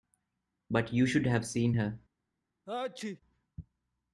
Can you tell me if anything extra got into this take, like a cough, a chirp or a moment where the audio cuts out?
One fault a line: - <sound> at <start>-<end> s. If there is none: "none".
- sneeze at 2.7-3.2 s